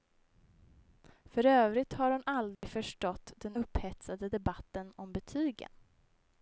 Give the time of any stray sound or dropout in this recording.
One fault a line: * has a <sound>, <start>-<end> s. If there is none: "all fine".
* has a dropout, 2.5-2.6 s